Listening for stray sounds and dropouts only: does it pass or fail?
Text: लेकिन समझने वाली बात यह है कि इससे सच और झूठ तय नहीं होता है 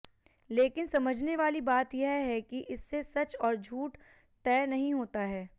pass